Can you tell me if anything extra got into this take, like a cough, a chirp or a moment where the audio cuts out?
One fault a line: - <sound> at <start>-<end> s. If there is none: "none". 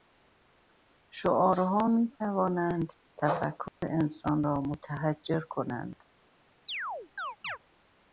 - dropout at 3.7-3.8 s
- chirp at 6.7-7.6 s